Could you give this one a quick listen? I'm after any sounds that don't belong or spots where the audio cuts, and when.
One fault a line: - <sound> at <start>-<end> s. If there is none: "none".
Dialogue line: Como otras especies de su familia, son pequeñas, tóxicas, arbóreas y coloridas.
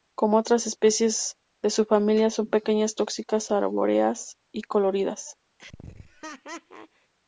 - laugh at 5.6-7.1 s